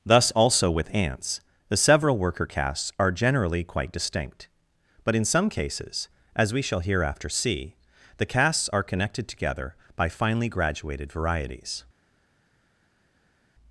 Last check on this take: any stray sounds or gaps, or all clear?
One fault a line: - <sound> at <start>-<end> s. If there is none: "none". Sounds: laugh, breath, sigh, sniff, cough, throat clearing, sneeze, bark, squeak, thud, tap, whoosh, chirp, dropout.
none